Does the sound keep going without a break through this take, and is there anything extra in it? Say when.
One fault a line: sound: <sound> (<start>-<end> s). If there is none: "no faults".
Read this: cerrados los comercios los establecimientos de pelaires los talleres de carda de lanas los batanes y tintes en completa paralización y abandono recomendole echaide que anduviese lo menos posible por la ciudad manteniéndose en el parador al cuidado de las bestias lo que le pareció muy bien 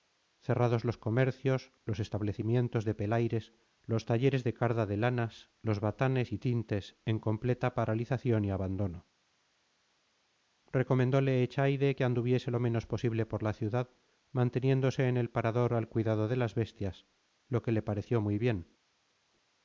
no faults